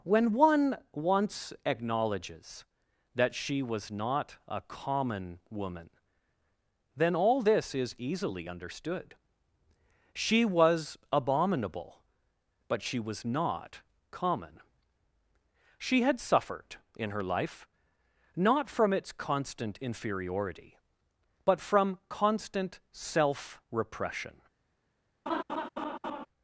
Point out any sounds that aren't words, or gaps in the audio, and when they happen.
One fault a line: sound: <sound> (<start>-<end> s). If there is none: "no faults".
sound: laugh (25.3-26.3 s)